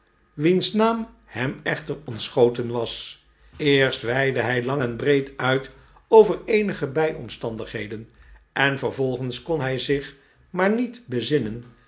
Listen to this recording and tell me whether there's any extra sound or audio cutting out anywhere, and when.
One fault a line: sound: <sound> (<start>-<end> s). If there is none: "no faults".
no faults